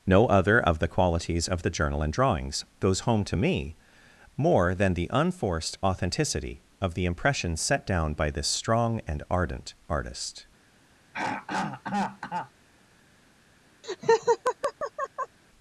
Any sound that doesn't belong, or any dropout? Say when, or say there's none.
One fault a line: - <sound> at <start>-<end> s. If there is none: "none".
- throat clearing at 11.1-12.5 s
- laugh at 13.8-15.4 s